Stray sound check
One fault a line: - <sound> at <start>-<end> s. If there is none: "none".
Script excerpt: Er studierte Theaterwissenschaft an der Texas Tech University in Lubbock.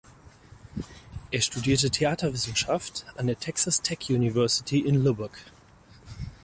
none